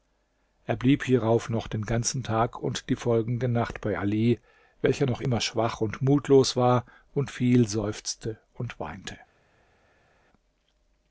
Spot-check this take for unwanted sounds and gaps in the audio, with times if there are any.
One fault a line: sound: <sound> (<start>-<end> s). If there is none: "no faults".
no faults